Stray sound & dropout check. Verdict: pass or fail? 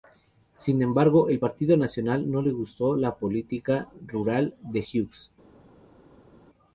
pass